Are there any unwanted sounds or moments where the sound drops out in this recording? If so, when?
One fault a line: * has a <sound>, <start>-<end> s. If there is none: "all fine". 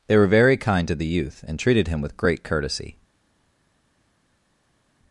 all fine